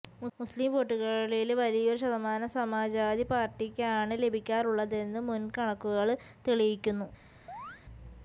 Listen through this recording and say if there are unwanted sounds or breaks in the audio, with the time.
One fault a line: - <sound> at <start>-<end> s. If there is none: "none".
- chirp at 7.5-7.8 s